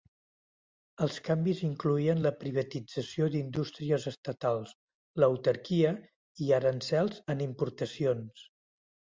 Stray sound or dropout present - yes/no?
no